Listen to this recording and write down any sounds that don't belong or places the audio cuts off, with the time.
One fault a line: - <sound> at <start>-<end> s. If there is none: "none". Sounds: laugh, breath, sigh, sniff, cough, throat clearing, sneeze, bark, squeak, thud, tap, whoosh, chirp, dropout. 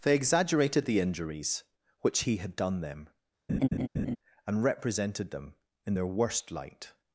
- laugh at 3.5-4.2 s